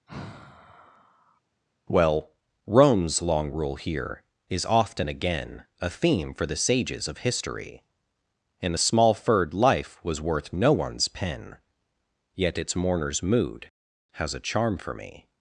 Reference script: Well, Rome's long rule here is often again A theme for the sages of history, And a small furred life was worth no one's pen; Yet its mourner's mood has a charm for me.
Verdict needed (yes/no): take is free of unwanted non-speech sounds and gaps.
no